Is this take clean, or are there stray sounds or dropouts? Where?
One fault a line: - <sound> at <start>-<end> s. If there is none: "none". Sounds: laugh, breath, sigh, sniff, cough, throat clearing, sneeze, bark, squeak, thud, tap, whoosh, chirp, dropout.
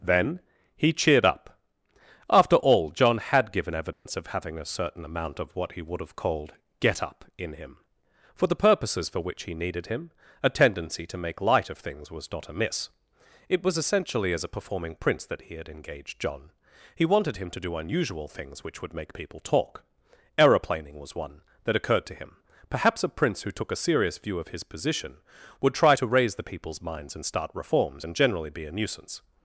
- dropout at 3.9-4.1 s